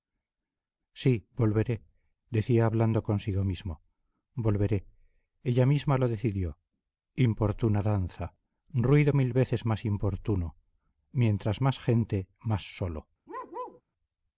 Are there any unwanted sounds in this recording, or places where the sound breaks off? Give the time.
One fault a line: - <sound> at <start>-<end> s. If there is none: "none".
- bark at 13.3-13.8 s